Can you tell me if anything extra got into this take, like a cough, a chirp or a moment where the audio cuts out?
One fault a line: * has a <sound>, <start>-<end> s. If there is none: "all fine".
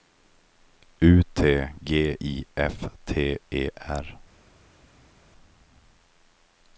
all fine